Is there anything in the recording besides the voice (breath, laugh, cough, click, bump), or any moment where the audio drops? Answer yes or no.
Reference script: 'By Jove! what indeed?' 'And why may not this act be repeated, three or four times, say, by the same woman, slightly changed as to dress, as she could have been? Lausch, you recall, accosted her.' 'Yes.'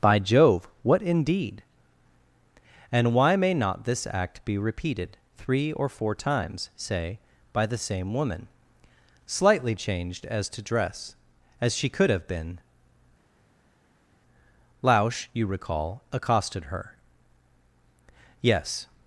no